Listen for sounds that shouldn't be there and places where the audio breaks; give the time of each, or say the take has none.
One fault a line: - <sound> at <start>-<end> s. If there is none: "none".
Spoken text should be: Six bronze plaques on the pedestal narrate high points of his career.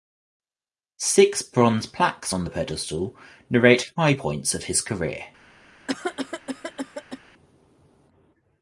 - cough at 5.9-7.2 s